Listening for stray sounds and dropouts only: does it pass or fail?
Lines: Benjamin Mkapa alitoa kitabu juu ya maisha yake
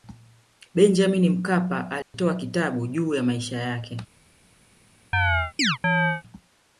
fail